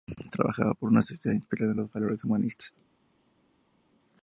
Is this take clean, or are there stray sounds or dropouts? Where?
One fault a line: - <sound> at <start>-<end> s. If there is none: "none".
none